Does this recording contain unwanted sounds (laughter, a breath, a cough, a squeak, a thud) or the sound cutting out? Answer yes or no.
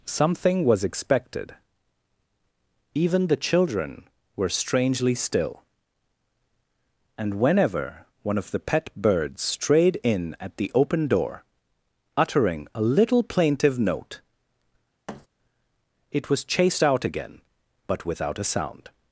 yes